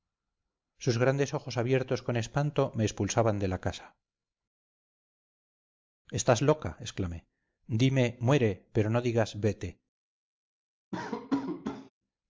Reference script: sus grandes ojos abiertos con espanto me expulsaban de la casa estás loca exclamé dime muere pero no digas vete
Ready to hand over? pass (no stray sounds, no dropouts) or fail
fail